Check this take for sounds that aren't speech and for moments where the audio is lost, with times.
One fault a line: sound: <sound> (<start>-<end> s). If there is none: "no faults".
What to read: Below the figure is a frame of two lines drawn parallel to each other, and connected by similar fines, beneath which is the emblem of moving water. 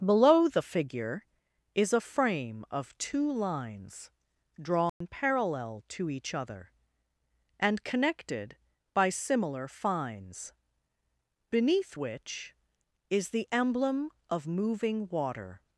sound: dropout (4.9-5.0 s)